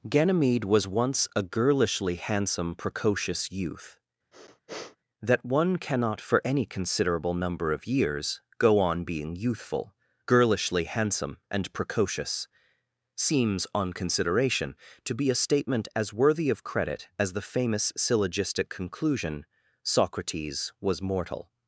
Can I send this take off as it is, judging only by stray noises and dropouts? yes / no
no